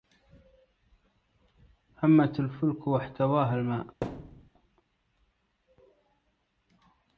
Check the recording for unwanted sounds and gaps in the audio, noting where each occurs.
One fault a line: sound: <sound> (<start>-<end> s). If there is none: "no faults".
sound: thud (4.0-4.5 s)